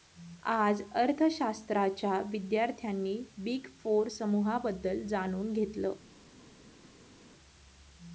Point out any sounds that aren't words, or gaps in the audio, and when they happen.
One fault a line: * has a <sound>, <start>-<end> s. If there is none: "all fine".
all fine